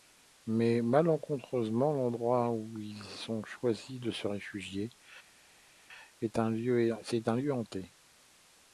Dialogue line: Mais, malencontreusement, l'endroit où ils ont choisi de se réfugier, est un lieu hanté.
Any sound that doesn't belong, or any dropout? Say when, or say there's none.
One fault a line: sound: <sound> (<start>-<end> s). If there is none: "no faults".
no faults